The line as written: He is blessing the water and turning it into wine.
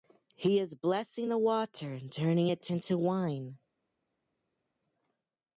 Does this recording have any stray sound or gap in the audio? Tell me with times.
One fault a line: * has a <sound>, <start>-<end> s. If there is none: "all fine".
all fine